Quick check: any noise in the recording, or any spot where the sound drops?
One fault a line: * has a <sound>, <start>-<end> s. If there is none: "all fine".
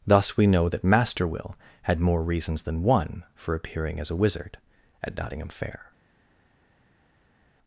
all fine